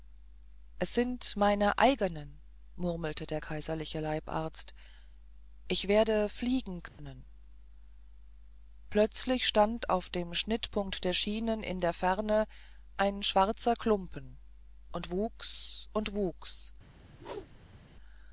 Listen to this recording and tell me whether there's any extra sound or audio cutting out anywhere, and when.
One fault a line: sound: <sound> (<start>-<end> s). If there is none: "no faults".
sound: dropout (6.9-7.0 s)
sound: whoosh (17.1-17.8 s)